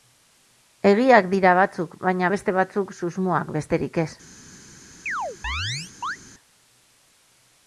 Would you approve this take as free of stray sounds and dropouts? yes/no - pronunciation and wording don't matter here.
no